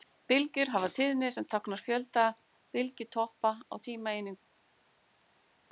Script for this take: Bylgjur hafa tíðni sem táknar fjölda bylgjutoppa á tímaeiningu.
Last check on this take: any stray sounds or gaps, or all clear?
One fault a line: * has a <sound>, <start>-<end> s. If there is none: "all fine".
all fine